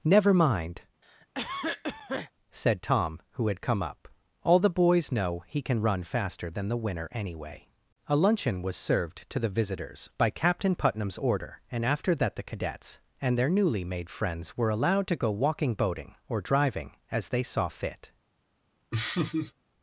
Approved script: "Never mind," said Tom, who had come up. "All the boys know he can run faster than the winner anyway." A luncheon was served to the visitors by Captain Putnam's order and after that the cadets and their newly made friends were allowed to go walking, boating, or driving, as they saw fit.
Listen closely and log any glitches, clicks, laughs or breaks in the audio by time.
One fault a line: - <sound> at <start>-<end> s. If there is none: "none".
- cough at 1.0-2.3 s
- laugh at 18.9-19.5 s